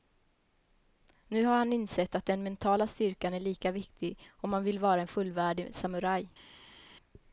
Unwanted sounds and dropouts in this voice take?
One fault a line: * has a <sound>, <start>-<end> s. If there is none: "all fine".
all fine